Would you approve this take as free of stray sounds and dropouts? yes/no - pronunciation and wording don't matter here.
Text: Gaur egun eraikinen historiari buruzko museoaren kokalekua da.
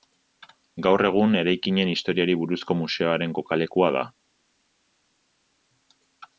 yes